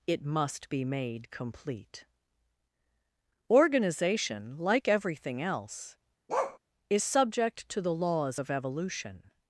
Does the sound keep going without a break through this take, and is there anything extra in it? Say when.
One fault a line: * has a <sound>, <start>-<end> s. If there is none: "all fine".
* has a bark, 6.3-6.6 s